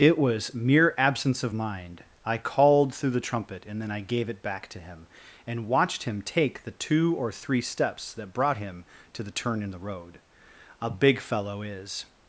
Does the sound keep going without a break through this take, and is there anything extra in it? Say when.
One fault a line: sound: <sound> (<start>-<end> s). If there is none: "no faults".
no faults